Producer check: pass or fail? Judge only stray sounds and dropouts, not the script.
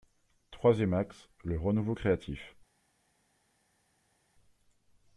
pass